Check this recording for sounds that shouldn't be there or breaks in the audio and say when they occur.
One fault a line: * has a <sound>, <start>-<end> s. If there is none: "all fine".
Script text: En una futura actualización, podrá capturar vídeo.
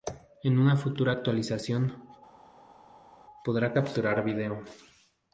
all fine